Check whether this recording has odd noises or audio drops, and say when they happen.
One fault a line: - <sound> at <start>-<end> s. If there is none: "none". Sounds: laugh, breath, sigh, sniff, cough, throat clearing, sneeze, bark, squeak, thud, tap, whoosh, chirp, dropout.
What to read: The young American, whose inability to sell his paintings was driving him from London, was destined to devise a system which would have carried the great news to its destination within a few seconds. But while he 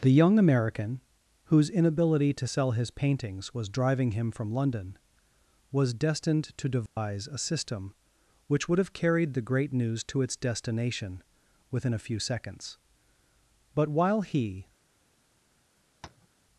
- dropout at 6.9-7.0 s
- tap at 16.0-16.3 s